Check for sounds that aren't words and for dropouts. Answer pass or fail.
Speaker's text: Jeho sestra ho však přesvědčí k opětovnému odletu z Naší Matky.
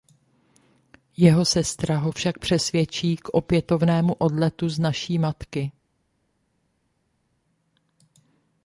pass